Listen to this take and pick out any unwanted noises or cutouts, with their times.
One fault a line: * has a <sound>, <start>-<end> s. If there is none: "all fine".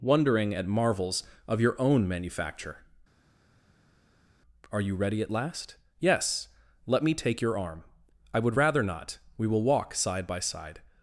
all fine